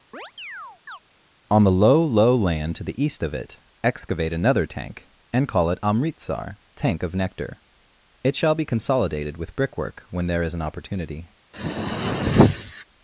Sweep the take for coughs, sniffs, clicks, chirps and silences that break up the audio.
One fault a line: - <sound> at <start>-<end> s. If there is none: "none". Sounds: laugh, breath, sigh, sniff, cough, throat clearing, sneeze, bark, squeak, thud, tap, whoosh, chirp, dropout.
- chirp at 0.1-1.0 s
- throat clearing at 11.5-12.8 s